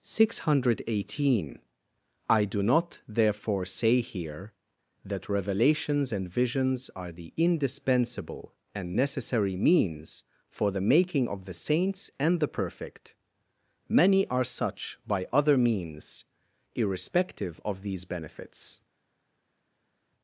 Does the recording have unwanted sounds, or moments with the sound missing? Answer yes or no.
no